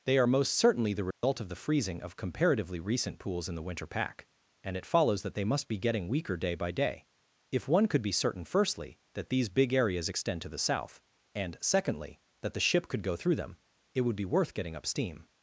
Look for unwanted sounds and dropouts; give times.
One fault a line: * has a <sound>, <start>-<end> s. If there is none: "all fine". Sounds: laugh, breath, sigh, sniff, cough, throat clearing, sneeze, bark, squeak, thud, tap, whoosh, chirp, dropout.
* has a dropout, 1.1-1.2 s